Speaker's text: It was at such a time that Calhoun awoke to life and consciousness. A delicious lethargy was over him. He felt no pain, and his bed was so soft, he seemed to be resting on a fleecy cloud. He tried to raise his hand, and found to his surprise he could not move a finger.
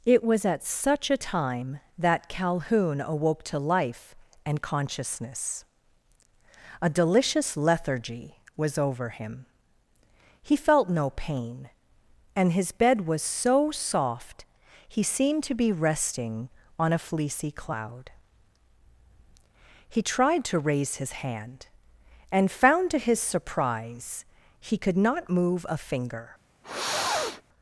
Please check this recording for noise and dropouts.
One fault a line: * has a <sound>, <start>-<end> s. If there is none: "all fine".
* has a sniff, 26.6-27.4 s